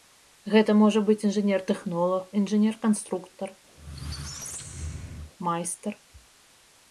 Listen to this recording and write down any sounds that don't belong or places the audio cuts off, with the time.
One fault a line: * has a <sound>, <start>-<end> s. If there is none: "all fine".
* has a squeak, 3.8-5.3 s